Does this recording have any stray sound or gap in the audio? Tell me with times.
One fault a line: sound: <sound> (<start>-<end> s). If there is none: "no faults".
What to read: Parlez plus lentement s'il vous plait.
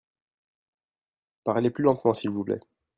no faults